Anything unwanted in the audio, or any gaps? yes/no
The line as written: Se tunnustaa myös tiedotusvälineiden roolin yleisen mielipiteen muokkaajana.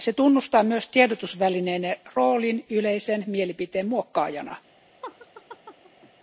yes